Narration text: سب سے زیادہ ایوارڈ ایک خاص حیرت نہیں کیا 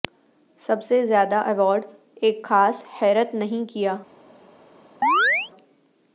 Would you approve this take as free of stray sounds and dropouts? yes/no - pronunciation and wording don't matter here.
no